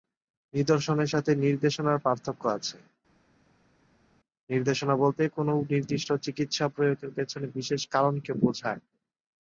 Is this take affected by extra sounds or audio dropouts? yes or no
no